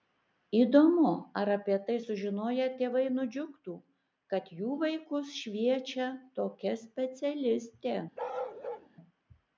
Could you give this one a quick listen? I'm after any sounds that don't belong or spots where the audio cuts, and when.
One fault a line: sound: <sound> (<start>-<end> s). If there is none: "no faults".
sound: bark (8.2-8.9 s)